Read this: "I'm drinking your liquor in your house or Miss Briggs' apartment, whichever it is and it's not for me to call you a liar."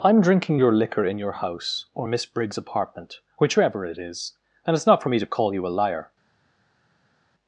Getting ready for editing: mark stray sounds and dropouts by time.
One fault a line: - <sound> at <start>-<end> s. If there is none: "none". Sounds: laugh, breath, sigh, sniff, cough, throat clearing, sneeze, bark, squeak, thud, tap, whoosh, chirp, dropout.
none